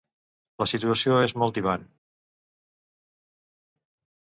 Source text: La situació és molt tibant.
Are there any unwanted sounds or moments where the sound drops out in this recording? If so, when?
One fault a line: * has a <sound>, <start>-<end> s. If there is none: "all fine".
all fine